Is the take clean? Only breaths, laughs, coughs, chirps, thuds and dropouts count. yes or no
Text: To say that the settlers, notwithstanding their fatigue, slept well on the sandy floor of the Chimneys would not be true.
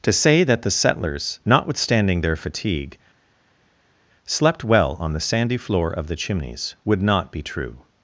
yes